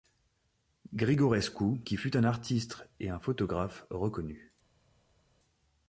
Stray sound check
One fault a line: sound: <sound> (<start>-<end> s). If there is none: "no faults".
no faults